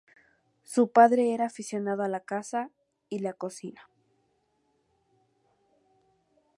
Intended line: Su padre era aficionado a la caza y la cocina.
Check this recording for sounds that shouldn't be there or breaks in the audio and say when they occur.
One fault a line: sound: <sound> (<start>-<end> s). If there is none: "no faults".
no faults